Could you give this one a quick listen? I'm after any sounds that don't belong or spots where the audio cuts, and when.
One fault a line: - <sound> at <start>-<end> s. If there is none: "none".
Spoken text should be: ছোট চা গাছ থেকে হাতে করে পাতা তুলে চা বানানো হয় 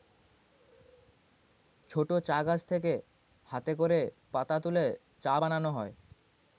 none